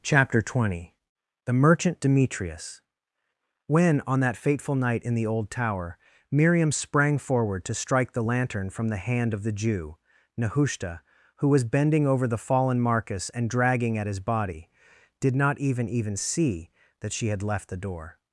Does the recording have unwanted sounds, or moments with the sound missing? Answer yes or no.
no